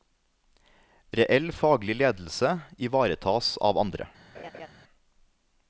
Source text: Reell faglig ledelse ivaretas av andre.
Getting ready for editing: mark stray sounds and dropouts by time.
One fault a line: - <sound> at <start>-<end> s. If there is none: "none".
- laugh at 4.3-4.7 s